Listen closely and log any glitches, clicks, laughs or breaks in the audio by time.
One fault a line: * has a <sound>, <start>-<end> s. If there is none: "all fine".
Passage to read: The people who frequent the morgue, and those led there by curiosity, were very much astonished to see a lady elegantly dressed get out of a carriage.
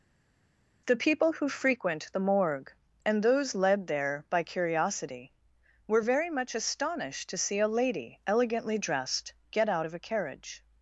all fine